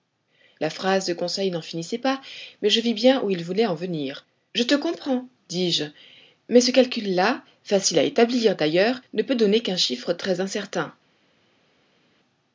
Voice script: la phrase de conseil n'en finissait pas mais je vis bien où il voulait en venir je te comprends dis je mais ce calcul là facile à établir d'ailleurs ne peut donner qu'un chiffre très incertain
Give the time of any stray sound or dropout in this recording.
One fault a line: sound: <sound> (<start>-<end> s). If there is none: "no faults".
no faults